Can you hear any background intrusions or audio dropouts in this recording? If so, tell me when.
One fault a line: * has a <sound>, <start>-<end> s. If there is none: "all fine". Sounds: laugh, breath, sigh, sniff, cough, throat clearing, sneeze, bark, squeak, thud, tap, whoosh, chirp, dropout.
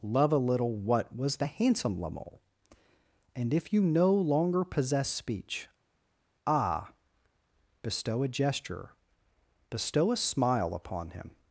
all fine